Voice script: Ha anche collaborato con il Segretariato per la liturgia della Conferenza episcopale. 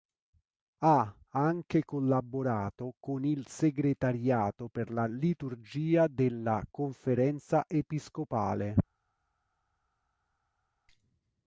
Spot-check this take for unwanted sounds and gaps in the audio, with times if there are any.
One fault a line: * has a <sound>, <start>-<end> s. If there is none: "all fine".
all fine